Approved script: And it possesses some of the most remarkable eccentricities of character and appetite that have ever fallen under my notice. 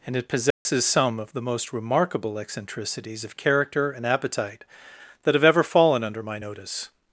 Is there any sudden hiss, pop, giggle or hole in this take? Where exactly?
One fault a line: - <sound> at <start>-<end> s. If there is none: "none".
- dropout at 0.5-0.7 s